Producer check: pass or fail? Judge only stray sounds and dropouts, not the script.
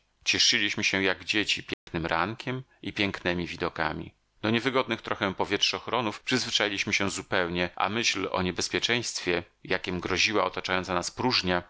fail